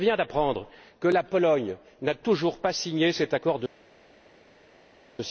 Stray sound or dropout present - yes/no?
no